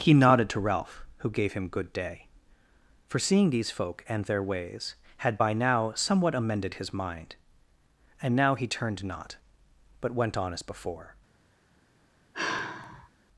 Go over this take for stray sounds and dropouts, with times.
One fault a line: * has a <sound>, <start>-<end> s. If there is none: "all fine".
* has a sigh, 12.3-13.1 s